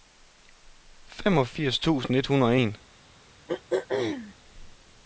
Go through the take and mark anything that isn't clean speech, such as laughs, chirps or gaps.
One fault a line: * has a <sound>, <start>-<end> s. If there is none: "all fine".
* has a throat clearing, 3.5-4.3 s